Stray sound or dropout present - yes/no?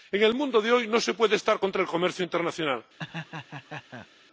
yes